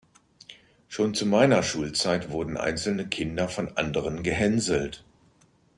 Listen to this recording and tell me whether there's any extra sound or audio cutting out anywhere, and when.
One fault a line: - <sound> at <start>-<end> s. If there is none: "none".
none